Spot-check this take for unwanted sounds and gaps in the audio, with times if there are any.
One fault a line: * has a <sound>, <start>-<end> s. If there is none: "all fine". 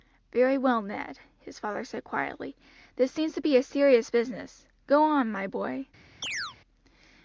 * has a chirp, 6.2-6.6 s